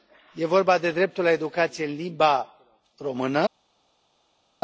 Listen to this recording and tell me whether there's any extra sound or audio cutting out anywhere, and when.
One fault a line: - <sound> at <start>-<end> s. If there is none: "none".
none